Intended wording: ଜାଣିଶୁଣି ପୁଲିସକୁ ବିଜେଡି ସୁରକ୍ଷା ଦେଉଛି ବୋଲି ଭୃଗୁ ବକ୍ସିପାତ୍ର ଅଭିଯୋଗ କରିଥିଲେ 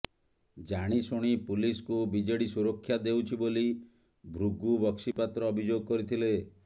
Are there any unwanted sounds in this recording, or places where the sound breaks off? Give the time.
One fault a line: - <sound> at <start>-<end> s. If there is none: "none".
- dropout at 5.1-5.2 s